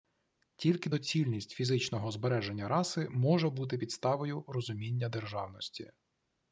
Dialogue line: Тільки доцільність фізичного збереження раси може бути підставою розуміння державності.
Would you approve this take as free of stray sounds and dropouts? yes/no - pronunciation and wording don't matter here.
yes